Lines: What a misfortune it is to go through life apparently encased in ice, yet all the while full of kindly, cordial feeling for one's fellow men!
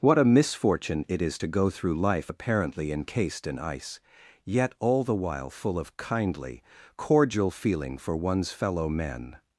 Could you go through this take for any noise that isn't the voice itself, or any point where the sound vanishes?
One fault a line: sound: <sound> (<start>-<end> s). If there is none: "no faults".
no faults